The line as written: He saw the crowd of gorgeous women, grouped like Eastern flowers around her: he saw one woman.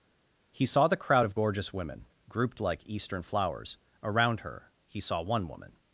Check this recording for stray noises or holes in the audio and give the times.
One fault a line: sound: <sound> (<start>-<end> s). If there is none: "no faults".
no faults